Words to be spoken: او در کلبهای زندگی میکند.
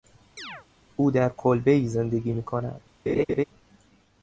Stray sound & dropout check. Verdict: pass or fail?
fail